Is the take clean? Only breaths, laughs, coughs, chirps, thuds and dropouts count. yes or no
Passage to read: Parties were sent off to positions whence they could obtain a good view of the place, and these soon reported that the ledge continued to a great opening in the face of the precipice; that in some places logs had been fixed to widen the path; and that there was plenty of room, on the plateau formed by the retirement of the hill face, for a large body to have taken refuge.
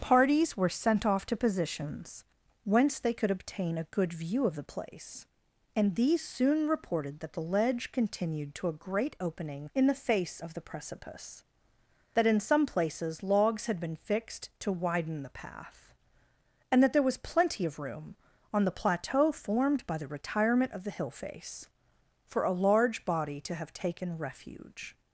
yes